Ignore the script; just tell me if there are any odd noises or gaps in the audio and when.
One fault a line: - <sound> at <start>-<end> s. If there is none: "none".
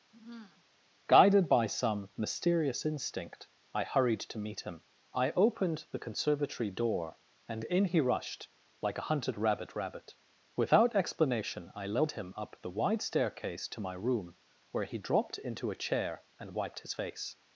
- sigh at 0.1-0.6 s